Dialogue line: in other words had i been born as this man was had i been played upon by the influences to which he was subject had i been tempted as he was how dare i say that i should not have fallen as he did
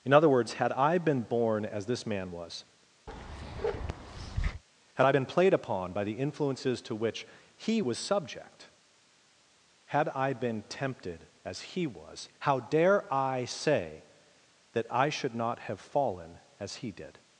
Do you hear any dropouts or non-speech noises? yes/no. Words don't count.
yes